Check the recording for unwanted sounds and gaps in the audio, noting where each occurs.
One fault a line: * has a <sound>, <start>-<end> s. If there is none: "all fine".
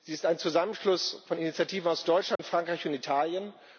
* has a dropout, 2.4-2.4 s